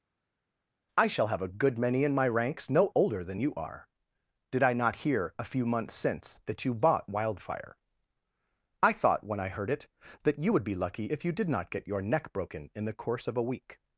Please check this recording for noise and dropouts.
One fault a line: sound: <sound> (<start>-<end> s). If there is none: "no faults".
no faults